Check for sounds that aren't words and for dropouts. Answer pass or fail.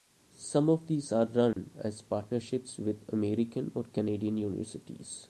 fail